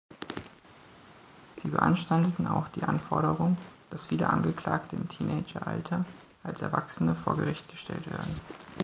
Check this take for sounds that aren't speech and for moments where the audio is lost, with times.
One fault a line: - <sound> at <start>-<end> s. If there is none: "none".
none